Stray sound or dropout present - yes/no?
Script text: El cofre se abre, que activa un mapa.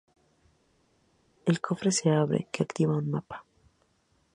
no